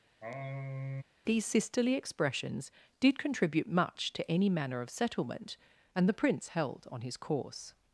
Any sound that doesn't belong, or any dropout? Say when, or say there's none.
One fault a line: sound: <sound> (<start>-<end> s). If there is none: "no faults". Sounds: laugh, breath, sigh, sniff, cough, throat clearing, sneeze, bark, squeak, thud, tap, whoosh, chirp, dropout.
sound: sigh (0.2-1.0 s)